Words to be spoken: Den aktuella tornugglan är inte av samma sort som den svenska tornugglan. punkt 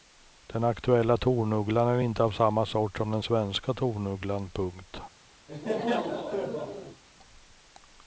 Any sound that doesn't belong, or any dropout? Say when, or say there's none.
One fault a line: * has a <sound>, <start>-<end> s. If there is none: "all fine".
* has a laugh, 5.5-7.0 s